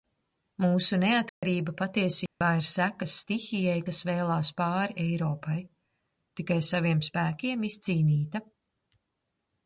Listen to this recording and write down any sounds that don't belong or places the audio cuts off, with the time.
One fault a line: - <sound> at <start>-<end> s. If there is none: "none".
- dropout at 1.3-1.4 s
- dropout at 2.3-2.4 s